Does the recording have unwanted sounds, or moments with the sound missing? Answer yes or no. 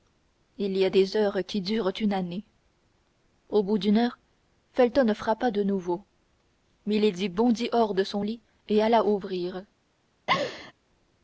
yes